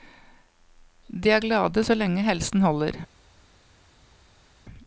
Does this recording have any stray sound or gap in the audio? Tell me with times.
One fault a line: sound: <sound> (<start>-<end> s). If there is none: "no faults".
no faults